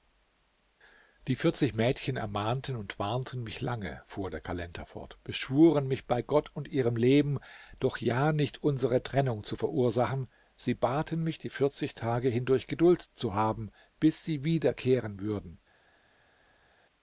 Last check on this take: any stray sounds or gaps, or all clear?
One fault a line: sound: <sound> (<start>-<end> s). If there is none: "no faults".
no faults